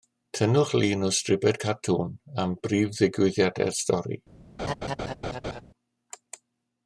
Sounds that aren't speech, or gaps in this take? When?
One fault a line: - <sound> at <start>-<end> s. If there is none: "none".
- laugh at 4.6-5.6 s